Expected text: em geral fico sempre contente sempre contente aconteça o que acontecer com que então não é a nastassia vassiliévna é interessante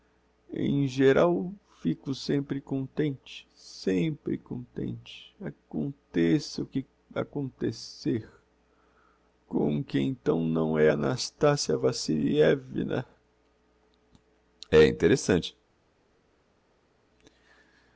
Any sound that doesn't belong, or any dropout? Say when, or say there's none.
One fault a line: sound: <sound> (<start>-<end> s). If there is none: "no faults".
no faults